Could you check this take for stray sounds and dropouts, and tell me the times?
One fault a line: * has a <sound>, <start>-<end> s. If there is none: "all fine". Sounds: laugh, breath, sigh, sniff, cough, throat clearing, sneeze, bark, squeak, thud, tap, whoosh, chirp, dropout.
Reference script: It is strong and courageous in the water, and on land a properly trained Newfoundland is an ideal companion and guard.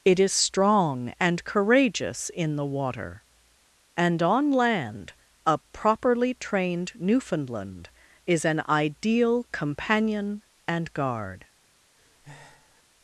* has a breath, 12.0-12.8 s